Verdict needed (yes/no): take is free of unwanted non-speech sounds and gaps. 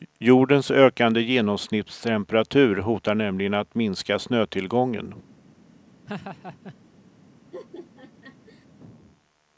no